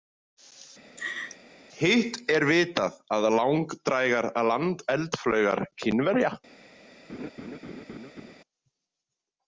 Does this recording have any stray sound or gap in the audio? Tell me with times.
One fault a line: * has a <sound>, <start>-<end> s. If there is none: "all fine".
* has a laugh, 1.0-1.4 s
* has a laugh, 7.1-8.3 s